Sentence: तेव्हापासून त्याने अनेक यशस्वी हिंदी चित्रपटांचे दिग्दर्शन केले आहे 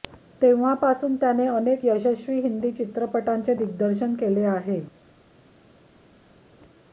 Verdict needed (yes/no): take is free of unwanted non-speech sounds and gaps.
yes